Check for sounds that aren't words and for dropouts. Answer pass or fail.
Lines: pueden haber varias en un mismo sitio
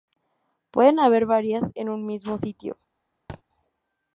fail